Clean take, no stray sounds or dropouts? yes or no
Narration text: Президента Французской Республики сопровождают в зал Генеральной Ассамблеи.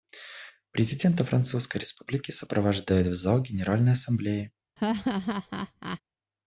no